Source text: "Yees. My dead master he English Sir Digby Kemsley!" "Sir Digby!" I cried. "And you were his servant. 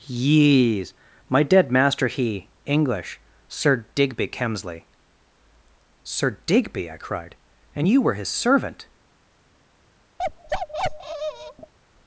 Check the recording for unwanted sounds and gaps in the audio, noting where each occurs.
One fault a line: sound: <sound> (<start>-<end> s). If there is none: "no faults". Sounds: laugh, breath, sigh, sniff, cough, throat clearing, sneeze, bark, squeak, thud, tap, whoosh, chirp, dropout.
sound: bark (10.2-11.7 s)